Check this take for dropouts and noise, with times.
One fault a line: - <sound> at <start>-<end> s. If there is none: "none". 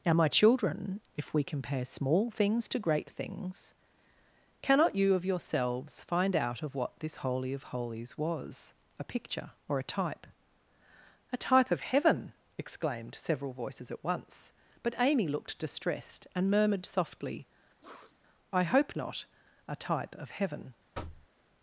- sniff at 17.8-18.2 s
- thud at 20.9-21.3 s